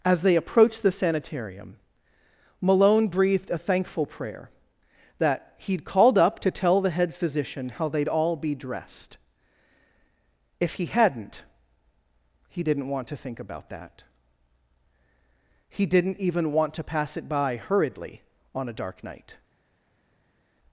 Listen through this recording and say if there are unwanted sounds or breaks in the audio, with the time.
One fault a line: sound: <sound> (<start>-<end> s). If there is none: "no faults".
no faults